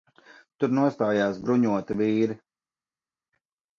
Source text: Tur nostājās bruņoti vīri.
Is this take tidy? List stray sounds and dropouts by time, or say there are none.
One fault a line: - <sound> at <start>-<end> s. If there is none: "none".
none